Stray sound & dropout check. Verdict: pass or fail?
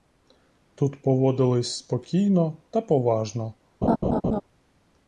fail